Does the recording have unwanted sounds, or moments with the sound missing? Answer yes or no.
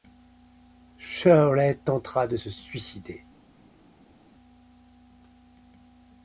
no